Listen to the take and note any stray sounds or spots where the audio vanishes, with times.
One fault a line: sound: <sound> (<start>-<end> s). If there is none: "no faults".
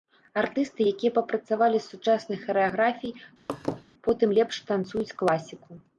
sound: laugh (3.5-3.8 s)